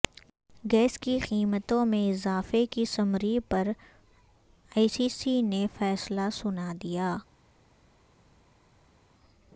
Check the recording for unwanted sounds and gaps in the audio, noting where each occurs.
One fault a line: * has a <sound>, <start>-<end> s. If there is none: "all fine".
all fine